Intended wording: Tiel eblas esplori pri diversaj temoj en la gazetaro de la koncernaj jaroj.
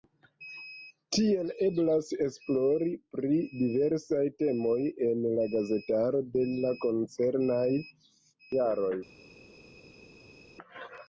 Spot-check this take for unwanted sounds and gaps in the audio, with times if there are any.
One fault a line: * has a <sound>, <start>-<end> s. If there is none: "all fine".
all fine